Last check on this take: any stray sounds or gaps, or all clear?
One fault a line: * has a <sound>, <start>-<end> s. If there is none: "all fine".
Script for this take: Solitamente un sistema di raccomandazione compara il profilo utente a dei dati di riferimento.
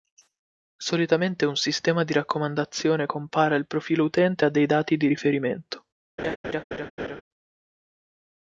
* has a laugh, 6.2-7.2 s